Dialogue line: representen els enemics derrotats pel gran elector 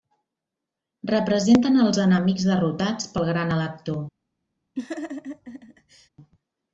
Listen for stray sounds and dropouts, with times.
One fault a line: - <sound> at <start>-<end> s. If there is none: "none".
- laugh at 4.8-6.1 s